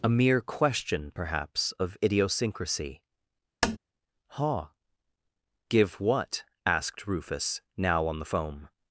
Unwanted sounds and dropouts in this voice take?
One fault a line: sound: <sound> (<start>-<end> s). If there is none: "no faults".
sound: tap (3.6-3.8 s)